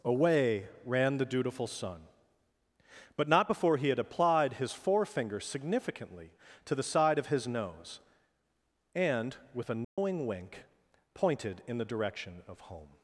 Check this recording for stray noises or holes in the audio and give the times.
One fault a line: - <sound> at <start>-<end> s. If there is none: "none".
- dropout at 9.8-10.0 s